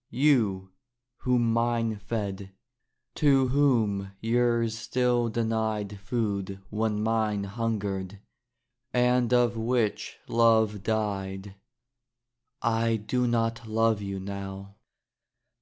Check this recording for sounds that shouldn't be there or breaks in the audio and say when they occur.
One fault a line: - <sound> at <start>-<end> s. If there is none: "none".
none